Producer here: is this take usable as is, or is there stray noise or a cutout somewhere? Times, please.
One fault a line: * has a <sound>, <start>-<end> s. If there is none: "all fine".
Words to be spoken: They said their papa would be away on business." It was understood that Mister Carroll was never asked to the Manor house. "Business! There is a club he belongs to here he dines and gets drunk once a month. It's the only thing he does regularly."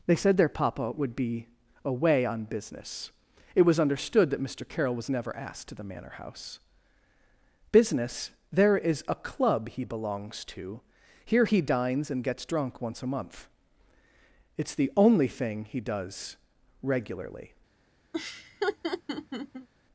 * has a laugh, 18.1-19.7 s